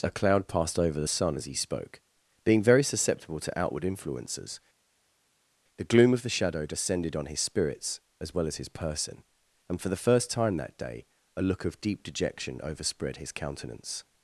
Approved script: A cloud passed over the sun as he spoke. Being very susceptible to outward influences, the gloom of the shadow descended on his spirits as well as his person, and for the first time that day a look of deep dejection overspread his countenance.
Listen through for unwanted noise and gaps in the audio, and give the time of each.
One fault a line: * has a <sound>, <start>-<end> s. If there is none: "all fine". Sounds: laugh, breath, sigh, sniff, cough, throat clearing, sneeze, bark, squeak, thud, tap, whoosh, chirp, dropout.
all fine